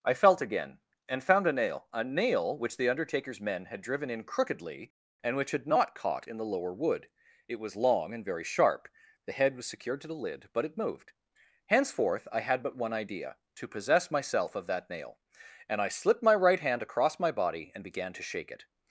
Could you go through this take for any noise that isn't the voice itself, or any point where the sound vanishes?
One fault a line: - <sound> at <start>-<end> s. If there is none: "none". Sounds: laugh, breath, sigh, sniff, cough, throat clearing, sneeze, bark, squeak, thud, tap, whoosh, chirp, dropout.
none